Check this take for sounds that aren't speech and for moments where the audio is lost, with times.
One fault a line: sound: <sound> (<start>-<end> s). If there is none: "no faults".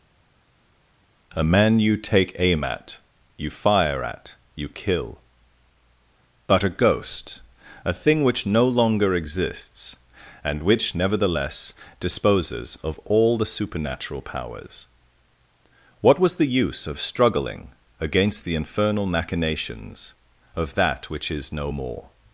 no faults